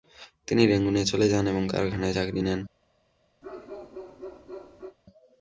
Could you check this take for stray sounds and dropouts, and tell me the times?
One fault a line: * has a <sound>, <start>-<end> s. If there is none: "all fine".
* has a bark, 3.4-5.0 s